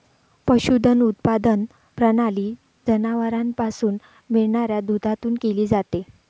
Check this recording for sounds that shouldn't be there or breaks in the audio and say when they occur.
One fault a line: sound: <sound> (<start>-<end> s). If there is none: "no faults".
no faults